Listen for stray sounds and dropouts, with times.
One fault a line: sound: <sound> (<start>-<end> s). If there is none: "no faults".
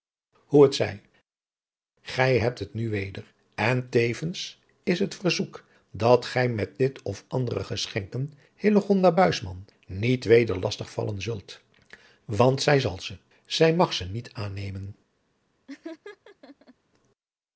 sound: laugh (15.7-16.7 s)